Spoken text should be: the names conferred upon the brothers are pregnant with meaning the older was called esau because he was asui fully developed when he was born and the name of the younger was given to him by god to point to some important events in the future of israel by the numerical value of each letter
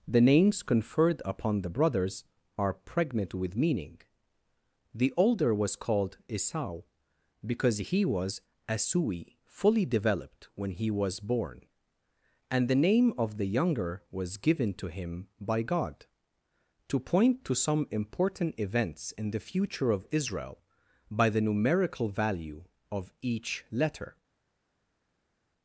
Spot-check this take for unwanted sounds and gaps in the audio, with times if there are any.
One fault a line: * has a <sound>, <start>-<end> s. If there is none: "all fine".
all fine